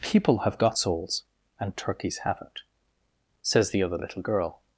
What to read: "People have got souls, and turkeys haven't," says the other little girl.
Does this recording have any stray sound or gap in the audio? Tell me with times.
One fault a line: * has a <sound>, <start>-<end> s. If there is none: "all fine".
all fine